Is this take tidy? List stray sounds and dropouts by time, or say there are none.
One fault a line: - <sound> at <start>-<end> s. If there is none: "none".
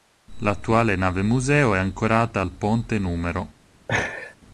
- laugh at 3.9-4.4 s